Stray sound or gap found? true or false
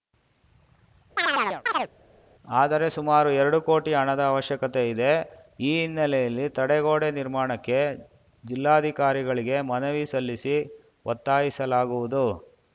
true